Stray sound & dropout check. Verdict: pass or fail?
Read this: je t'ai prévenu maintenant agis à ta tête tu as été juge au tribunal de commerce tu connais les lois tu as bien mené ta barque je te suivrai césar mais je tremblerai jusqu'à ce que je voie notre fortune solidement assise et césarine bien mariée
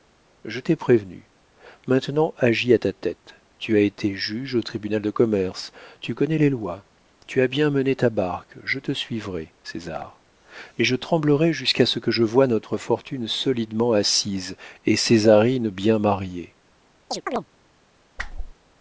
fail